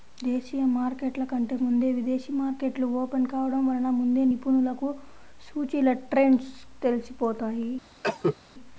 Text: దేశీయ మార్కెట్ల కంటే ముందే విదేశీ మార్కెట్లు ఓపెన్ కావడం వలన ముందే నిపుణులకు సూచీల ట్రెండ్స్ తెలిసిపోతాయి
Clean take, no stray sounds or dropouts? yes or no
no